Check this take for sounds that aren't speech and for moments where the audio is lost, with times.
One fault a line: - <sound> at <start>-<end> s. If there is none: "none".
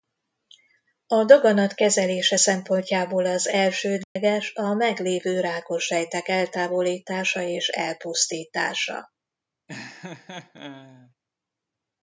- dropout at 4.0-4.2 s
- laugh at 9.7-11.1 s